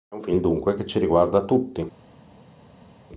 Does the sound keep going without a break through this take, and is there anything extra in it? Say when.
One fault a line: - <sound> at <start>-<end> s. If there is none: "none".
none